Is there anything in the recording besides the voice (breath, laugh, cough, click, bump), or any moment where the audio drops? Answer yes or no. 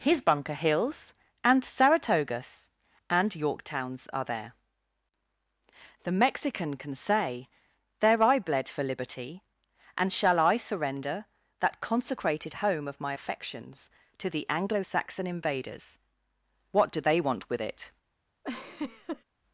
yes